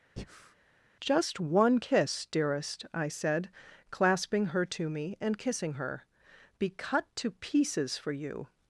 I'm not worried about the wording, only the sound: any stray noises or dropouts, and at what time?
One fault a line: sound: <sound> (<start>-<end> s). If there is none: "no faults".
sound: breath (0.2-0.5 s)